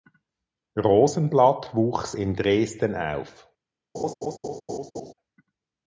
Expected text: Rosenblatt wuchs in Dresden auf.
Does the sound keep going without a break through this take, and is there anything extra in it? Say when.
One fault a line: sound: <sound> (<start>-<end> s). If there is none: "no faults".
sound: laugh (3.9-5.1 s)